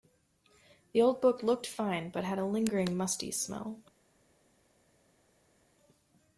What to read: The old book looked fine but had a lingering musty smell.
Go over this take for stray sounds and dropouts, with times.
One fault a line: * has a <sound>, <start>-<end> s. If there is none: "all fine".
all fine